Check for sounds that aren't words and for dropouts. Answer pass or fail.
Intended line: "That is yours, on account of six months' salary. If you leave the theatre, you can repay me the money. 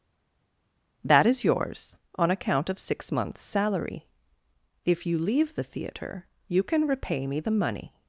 pass